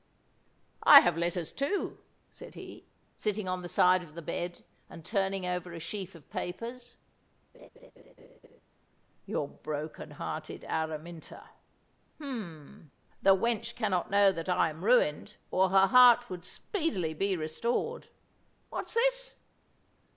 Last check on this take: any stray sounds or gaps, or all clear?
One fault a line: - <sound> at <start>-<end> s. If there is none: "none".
- laugh at 7.5-8.6 s